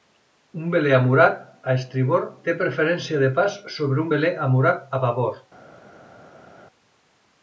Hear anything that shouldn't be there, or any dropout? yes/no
no